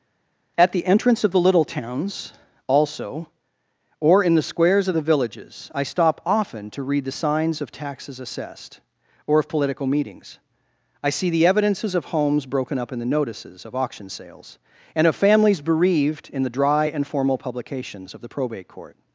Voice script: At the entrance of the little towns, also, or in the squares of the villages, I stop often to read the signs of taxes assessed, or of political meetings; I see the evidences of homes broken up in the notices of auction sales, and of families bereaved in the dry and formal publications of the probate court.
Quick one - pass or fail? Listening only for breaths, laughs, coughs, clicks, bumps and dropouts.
pass